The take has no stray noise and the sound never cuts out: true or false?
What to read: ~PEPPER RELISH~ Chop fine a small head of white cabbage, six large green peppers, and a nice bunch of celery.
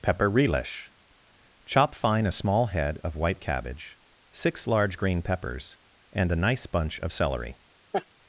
false